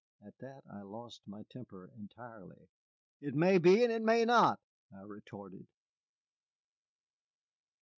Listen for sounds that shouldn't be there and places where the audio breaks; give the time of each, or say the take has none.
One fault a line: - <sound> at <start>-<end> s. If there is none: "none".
none